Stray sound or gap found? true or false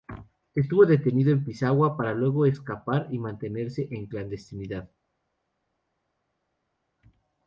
false